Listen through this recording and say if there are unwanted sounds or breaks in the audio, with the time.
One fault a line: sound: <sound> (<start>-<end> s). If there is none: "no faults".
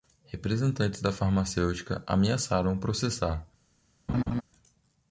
sound: laugh (4.1-4.4 s)